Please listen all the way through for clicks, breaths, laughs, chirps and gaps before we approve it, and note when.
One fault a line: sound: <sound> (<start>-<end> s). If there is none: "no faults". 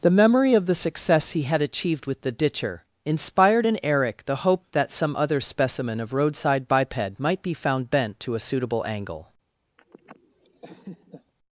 sound: laugh (9.8-11.3 s)